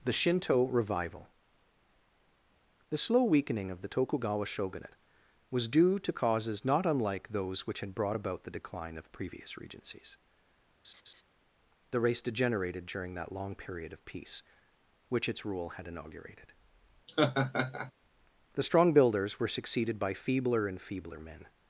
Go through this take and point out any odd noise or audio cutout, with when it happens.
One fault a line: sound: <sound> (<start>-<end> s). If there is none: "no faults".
sound: laugh (10.8-11.2 s)
sound: laugh (17.1-17.9 s)